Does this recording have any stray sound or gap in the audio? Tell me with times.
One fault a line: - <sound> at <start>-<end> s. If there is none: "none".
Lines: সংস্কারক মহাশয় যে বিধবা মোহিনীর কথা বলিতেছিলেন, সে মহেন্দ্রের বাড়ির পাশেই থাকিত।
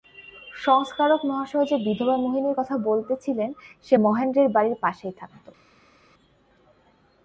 none